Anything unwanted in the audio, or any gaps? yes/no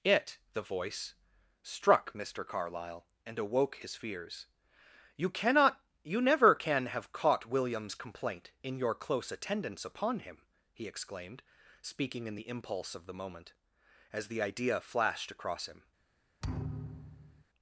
yes